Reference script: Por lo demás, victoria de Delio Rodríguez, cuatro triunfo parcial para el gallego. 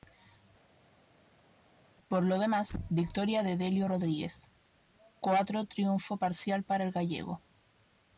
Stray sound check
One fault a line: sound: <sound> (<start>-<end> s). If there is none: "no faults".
no faults